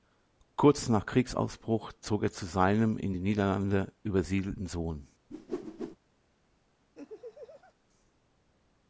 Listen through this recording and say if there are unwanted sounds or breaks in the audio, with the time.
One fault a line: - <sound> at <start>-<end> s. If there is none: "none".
- whoosh at 5.3-6.0 s
- laugh at 6.9-7.7 s